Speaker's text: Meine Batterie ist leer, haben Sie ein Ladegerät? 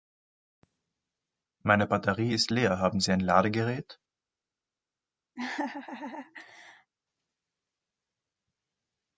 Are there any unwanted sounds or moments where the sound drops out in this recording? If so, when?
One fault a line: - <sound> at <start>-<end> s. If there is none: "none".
- laugh at 5.4-6.9 s